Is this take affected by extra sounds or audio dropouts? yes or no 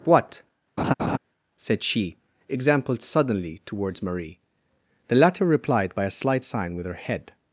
yes